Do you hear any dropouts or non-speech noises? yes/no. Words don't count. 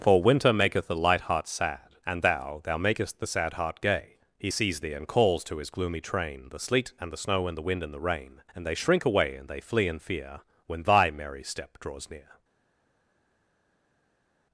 no